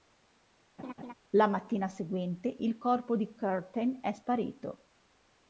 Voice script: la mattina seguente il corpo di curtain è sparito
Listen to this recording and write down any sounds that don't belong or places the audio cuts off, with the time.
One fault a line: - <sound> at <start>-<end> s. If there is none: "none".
- laugh at 0.8-1.1 s